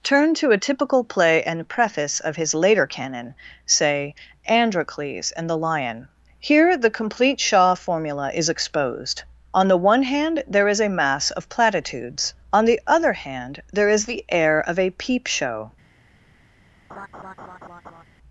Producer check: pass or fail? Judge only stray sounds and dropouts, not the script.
fail